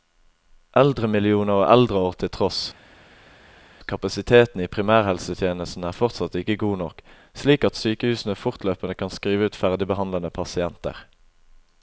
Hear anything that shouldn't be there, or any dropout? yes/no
no